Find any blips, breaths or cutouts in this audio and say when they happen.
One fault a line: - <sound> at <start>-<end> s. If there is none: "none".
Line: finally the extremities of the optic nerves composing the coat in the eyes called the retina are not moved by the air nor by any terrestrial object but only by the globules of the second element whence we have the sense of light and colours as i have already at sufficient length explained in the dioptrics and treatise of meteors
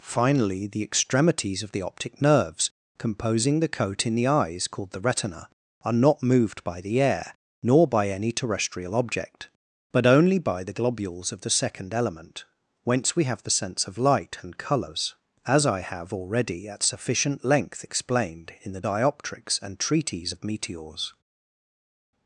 none